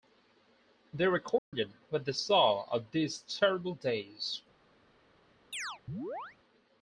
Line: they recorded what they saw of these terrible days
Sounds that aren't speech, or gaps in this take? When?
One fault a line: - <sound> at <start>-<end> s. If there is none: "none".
- dropout at 1.4-1.5 s
- chirp at 5.5-6.4 s